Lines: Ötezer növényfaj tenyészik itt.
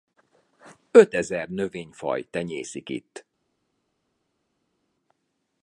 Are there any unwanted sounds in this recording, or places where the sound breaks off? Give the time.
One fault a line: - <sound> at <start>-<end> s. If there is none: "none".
none